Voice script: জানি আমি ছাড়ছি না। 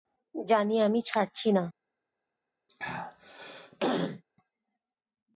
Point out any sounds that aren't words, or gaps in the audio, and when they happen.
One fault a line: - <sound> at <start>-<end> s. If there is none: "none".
- throat clearing at 2.7-4.2 s